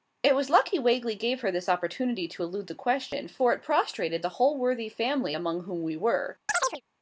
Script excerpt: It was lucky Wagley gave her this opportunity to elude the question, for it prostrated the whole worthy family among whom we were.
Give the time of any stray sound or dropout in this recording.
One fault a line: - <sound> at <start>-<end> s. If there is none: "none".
- chirp at 6.5-6.8 s